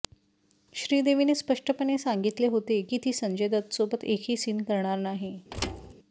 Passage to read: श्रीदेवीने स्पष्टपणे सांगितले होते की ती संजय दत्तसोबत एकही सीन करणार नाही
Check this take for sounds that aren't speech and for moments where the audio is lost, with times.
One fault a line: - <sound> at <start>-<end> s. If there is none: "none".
- thud at 5.5-5.9 s